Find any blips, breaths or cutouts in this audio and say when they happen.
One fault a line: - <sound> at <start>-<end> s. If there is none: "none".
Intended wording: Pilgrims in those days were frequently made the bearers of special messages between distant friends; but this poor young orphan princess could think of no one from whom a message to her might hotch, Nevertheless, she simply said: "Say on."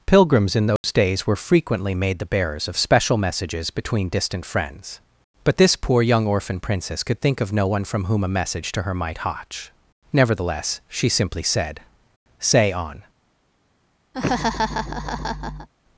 - dropout at 0.8-0.8 s
- laugh at 14.1-15.7 s